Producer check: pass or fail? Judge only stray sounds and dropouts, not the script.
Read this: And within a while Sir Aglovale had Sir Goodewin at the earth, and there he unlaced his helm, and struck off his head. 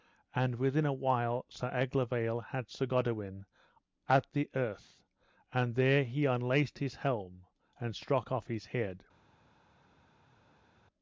pass